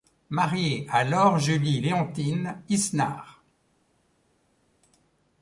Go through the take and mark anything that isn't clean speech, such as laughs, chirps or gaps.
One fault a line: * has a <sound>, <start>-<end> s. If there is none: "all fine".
all fine